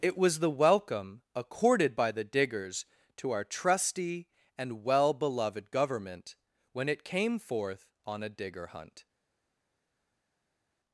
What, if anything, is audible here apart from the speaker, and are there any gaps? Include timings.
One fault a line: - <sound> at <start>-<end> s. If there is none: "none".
none